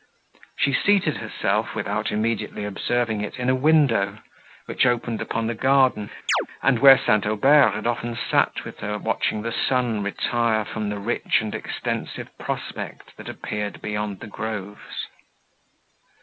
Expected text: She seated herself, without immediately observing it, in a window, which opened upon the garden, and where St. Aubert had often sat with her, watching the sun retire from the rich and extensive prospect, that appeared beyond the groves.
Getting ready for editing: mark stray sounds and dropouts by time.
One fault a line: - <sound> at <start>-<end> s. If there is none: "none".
- chirp at 6.3-6.5 s